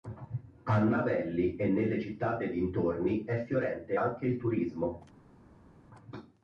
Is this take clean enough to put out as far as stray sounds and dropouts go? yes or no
yes